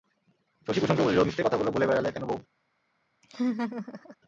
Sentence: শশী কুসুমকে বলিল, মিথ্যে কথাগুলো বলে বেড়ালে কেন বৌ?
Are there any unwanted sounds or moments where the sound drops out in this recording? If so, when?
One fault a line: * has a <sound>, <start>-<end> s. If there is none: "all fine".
* has a laugh, 3.2-4.2 s